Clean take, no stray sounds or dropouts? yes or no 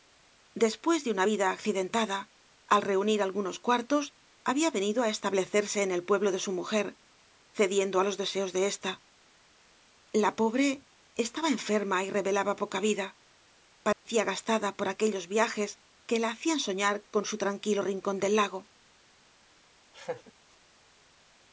no